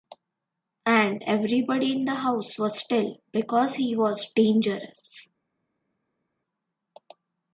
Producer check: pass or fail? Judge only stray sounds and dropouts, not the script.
pass